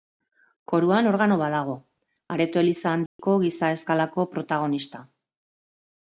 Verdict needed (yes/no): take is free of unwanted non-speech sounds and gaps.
no